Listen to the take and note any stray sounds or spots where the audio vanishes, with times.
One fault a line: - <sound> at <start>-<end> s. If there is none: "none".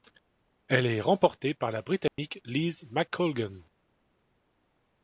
- dropout at 2.1-2.2 s